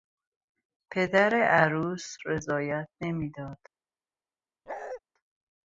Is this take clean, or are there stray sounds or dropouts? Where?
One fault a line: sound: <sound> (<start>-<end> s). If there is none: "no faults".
sound: bark (4.7-5.0 s)